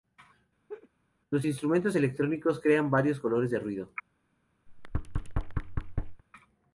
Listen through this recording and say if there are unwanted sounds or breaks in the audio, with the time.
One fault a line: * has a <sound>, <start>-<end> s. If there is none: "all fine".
* has a laugh, 0.7-0.9 s
* has a thud, 4.7-6.2 s